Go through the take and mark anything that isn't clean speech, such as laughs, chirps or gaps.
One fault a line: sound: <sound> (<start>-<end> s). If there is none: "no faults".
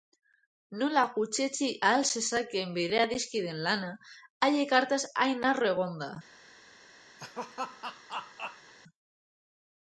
sound: laugh (7.2-8.7 s)